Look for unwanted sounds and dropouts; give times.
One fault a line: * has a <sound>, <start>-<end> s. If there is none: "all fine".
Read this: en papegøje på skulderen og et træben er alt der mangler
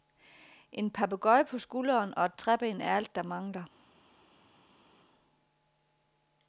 all fine